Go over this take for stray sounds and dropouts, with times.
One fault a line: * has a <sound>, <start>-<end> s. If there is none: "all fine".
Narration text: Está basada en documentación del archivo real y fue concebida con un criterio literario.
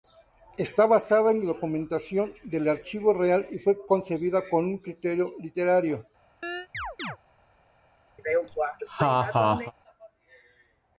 * has a chirp, 6.4-7.2 s
* has a laugh, 8.2-9.7 s